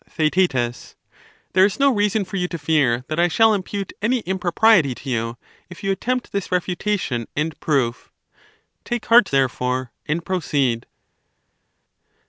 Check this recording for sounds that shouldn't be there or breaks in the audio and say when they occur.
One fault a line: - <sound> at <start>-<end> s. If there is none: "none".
none